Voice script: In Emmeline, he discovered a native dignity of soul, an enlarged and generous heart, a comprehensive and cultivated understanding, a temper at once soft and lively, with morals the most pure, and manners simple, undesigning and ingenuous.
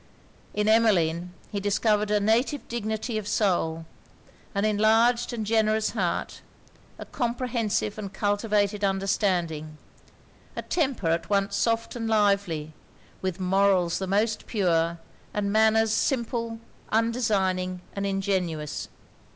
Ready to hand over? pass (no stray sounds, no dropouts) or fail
pass